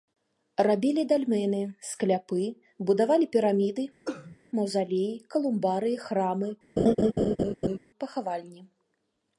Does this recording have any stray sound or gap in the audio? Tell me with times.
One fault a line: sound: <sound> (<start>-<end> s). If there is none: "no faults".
sound: cough (4.1-4.4 s)
sound: laugh (6.8-7.8 s)